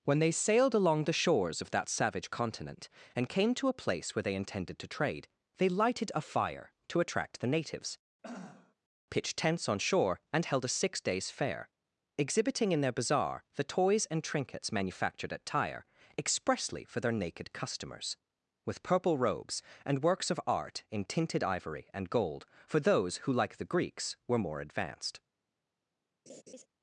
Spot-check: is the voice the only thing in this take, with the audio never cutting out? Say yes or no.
no